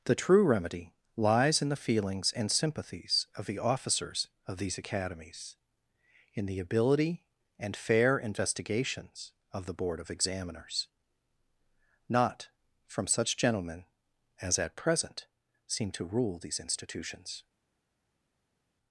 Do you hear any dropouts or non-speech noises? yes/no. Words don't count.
no